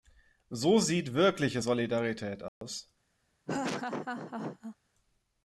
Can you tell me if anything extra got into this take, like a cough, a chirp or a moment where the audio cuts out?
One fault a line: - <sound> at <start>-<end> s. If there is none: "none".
- dropout at 2.5-2.6 s
- laugh at 3.5-4.8 s